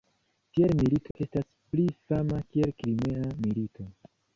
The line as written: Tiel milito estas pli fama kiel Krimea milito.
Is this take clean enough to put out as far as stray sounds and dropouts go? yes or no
no